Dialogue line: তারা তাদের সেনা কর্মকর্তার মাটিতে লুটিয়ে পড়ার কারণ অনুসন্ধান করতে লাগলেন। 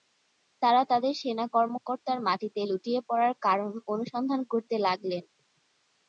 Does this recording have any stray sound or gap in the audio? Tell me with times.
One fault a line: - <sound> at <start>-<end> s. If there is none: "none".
none